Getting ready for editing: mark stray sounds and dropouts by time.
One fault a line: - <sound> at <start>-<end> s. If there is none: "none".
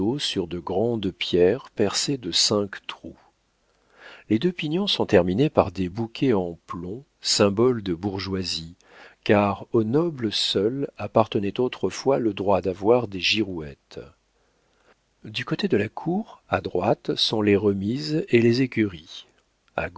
none